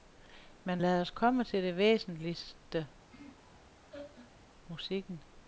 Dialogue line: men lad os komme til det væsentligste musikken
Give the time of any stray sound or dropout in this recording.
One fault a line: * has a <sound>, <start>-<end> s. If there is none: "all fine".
* has a laugh, 3.1-4.4 s